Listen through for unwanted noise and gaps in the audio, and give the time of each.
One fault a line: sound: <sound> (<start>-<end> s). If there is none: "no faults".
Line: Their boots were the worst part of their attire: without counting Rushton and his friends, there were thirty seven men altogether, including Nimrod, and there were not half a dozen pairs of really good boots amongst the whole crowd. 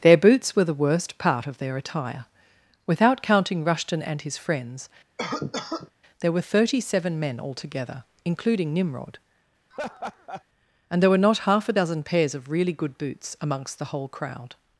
sound: cough (5.2-5.9 s)
sound: laugh (9.7-10.4 s)